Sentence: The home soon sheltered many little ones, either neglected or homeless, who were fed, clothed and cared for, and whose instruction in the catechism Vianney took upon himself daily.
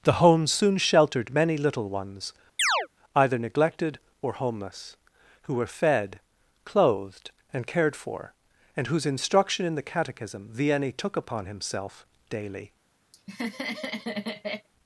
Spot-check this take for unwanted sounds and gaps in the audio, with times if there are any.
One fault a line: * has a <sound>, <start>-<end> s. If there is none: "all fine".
* has a chirp, 2.6-2.9 s
* has a laugh, 13.1-14.7 s